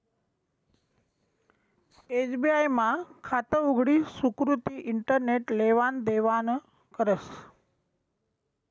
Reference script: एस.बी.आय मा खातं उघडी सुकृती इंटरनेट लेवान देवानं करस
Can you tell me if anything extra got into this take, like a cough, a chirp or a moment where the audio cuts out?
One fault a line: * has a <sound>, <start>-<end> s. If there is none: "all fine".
all fine